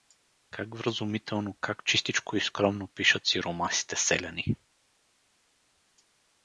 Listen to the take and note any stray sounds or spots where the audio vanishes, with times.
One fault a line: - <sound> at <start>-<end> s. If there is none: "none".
none